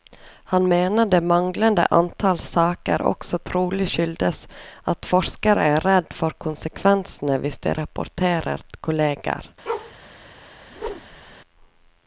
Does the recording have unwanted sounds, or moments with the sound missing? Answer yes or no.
yes